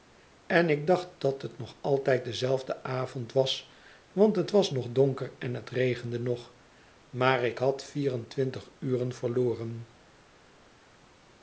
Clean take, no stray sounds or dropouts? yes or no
yes